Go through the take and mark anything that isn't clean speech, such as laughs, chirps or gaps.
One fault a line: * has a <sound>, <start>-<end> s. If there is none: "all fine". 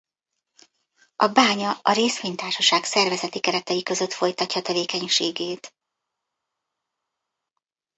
all fine